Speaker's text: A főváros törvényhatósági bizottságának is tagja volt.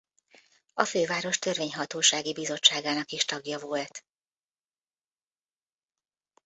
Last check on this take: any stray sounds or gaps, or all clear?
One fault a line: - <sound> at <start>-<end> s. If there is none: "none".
none